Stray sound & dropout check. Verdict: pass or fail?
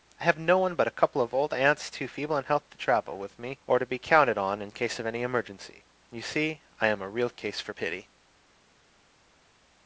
pass